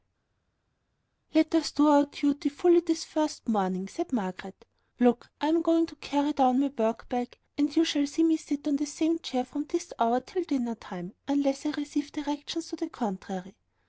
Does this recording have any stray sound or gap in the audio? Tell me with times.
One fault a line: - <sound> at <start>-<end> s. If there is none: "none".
none